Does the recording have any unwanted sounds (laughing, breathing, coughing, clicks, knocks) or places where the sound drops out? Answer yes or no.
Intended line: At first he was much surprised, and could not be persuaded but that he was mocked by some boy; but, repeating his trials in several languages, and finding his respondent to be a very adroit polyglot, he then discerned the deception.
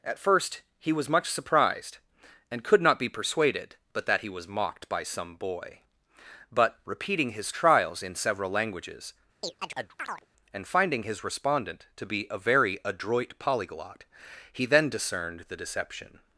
yes